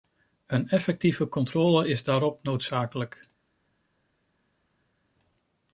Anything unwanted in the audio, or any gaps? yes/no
no